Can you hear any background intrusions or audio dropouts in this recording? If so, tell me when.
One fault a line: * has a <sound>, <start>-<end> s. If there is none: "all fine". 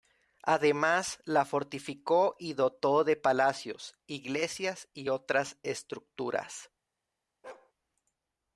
* has a bark, 7.4-7.7 s